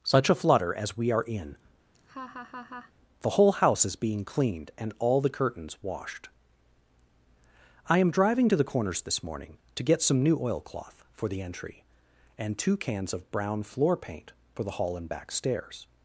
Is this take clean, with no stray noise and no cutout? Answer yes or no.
no